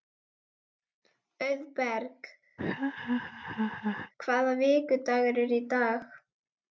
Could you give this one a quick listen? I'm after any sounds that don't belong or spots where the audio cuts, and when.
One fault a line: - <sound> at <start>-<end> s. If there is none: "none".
- laugh at 2.6-4.1 s